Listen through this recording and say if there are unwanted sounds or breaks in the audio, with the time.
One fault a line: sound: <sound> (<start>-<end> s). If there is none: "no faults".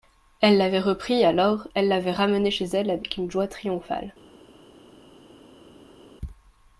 no faults